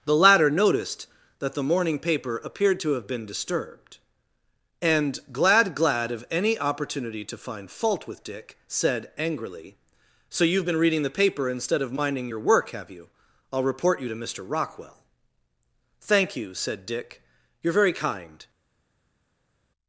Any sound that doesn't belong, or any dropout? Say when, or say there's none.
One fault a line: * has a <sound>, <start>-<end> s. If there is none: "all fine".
all fine